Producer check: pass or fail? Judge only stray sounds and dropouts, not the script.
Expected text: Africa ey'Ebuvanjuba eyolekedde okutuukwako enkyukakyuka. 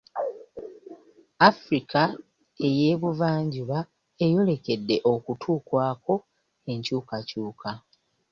pass